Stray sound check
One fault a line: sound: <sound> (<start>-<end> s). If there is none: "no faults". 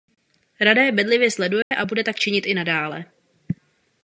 sound: dropout (1.6-1.7 s)